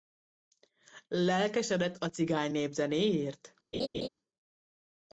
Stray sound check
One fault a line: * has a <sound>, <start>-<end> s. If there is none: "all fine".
* has a laugh, 3.7-4.1 s